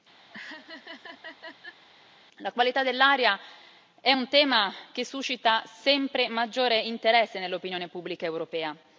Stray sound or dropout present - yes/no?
yes